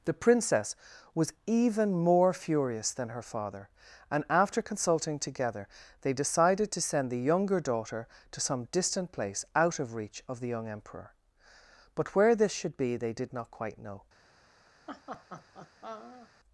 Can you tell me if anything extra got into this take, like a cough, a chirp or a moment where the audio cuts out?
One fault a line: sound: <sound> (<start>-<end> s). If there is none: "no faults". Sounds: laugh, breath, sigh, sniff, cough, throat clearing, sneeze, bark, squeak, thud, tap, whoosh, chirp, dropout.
sound: laugh (14.9-16.3 s)